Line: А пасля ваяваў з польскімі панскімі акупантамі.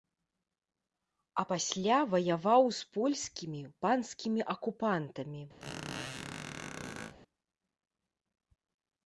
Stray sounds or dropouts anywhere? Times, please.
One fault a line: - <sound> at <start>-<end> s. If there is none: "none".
- squeak at 5.6-7.1 s